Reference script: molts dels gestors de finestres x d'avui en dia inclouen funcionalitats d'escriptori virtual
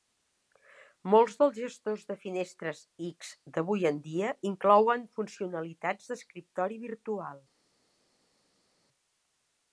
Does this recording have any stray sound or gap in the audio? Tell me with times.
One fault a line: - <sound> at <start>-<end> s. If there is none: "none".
none